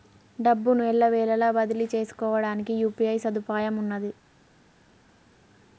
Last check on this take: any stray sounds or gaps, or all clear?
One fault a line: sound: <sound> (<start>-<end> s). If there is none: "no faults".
no faults